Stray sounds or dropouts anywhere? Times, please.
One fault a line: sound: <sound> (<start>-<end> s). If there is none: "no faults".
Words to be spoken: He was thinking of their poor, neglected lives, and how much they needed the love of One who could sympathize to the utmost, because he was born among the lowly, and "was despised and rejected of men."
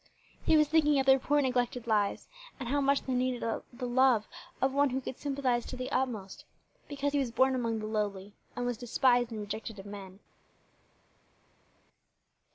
no faults